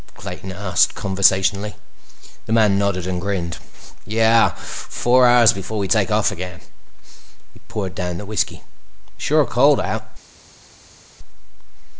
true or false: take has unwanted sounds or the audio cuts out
false